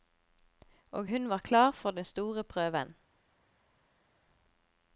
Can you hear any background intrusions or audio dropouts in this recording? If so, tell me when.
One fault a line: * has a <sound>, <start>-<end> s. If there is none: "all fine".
all fine